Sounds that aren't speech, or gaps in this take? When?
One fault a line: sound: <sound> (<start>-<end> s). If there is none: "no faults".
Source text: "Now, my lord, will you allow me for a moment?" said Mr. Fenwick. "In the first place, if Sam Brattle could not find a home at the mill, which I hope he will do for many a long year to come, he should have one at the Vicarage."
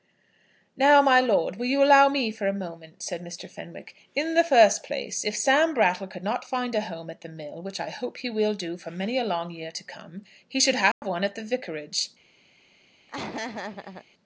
sound: dropout (10.9-11.0 s)
sound: laugh (13.1-14.1 s)